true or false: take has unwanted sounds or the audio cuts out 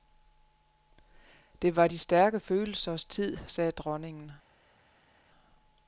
false